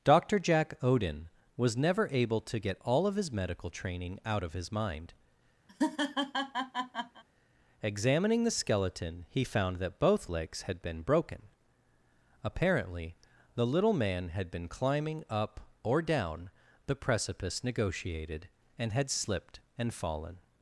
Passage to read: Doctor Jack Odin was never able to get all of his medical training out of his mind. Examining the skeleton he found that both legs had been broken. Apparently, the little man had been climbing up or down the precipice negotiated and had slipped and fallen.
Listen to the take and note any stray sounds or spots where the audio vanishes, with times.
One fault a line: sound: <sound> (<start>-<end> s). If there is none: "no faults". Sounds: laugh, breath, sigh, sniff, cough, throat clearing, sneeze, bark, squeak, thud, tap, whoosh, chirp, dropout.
sound: laugh (5.7-7.2 s)